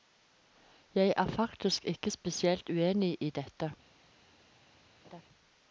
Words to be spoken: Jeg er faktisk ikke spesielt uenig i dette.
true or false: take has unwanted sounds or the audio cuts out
true